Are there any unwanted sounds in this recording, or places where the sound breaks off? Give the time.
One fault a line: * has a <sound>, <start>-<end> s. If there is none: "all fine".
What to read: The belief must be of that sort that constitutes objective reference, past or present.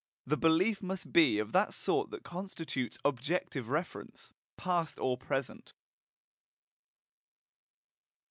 all fine